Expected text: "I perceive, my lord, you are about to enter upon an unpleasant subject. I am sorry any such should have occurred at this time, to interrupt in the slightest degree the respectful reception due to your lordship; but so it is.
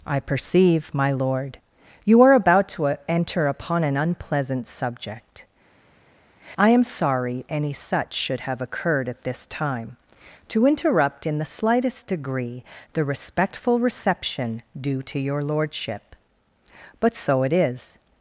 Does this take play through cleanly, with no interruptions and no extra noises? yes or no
yes